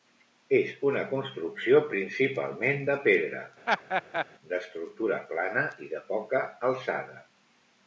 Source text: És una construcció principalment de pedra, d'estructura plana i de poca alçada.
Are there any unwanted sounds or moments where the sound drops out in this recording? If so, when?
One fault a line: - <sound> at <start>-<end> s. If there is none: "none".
- laugh at 3.7-4.3 s